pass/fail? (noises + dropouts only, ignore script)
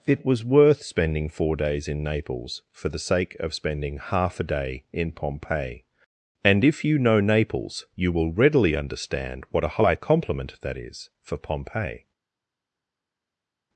pass